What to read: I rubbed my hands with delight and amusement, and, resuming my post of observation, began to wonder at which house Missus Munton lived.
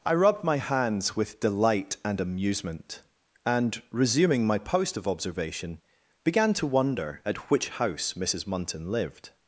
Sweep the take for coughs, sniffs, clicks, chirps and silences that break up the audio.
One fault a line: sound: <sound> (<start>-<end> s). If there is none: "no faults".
no faults